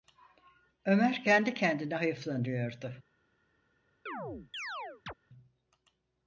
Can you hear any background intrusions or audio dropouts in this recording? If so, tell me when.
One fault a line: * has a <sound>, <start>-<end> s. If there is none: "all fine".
* has a chirp, 4.1-5.1 s